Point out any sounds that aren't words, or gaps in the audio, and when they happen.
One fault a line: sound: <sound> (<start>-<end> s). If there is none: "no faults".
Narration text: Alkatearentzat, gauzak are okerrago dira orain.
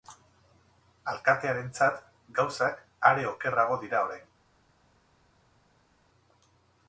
no faults